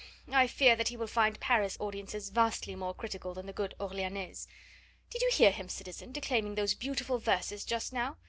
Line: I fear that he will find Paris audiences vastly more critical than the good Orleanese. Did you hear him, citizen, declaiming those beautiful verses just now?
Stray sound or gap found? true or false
false